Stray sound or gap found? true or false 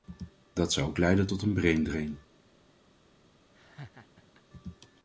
true